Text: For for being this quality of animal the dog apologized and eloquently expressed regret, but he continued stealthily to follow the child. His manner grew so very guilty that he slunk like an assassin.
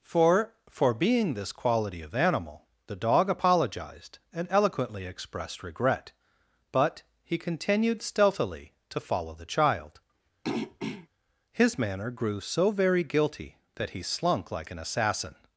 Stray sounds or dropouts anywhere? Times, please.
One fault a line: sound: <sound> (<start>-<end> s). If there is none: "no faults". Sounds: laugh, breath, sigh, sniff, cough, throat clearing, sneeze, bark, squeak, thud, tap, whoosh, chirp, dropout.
sound: throat clearing (10.4-11.1 s)